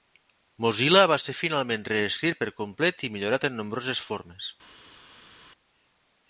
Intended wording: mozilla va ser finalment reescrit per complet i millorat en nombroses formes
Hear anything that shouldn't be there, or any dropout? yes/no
no